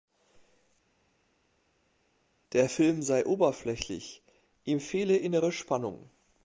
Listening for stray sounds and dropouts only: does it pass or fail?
pass